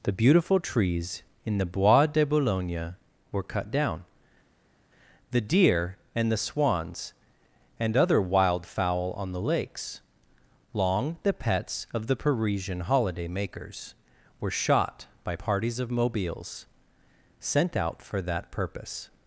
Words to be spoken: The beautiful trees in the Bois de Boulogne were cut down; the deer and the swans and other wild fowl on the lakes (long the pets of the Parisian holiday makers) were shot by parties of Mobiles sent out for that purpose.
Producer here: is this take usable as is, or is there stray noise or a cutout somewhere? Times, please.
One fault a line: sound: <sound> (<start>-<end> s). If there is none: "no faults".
no faults